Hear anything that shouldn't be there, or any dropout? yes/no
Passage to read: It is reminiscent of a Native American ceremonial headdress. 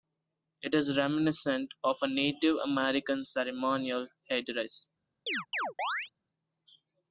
yes